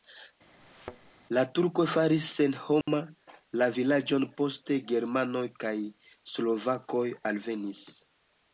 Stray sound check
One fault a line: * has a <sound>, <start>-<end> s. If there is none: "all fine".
* has a thud, 0.6-1.1 s
* has a dropout, 2.8-2.9 s